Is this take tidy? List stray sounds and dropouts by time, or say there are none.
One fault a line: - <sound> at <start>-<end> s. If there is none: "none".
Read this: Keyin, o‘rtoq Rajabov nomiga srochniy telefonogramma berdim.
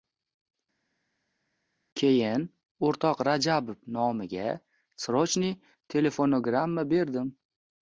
none